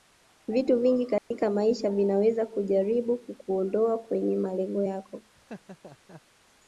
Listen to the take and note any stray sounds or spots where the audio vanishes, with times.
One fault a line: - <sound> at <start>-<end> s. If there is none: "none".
- dropout at 1.2-1.3 s
- laugh at 5.4-6.2 s